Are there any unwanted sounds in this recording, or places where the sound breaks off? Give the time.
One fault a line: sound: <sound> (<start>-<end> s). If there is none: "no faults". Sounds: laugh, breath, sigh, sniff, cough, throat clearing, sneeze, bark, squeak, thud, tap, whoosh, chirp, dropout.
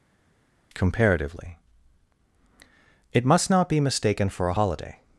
no faults